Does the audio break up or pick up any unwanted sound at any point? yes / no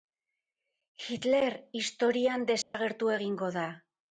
yes